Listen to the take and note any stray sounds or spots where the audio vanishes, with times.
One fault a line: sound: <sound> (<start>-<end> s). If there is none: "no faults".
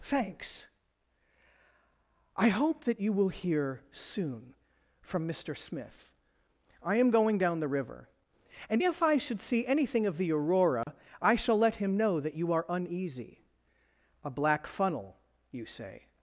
sound: dropout (10.8-10.9 s)